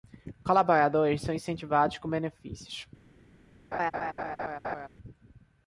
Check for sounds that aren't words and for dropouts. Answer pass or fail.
fail